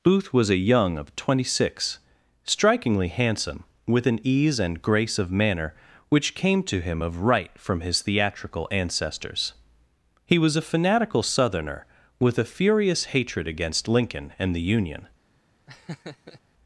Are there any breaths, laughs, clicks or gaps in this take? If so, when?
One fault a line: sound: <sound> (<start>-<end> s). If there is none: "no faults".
sound: laugh (15.7-16.4 s)